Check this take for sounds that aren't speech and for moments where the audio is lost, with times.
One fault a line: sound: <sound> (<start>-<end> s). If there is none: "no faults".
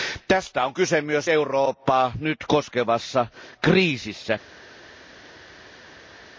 no faults